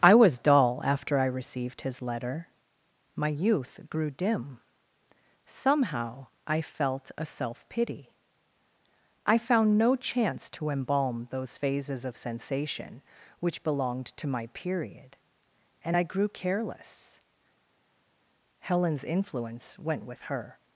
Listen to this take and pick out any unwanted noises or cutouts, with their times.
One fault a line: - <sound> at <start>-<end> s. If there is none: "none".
none